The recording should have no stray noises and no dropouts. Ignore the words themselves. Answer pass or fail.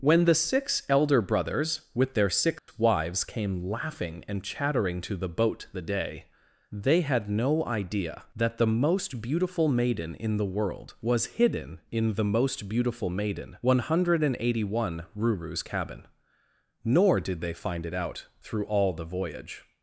fail